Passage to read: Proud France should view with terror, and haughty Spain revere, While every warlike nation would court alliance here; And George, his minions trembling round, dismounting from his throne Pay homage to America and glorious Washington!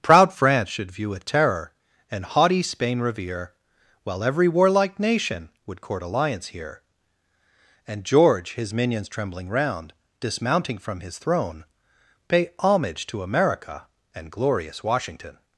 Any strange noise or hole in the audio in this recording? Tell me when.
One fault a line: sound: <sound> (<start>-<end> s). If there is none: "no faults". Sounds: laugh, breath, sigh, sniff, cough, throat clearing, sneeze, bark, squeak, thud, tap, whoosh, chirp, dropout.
no faults